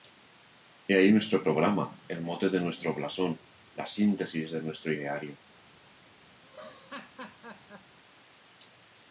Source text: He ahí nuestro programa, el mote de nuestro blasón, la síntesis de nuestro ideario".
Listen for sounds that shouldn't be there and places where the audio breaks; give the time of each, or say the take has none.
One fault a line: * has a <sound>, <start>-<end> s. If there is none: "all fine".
* has a laugh, 6.4-8.0 s